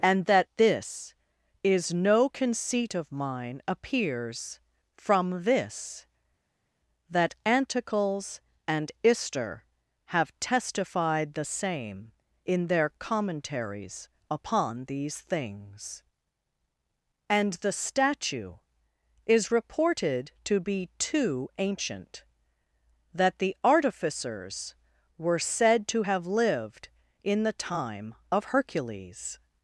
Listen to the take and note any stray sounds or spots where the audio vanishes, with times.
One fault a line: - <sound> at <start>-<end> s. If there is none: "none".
none